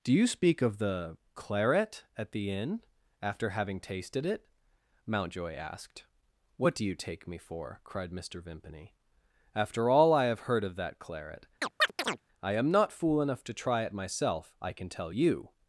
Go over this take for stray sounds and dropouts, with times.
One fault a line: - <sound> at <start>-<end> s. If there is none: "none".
- chirp at 11.6-12.2 s